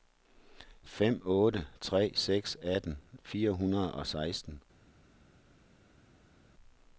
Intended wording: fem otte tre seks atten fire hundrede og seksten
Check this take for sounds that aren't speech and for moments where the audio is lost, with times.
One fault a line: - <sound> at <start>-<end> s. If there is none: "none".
none